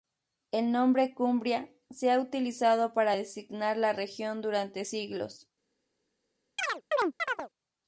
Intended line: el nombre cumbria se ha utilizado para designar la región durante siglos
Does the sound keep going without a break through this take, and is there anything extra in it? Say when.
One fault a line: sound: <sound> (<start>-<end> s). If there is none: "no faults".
sound: chirp (6.6-7.5 s)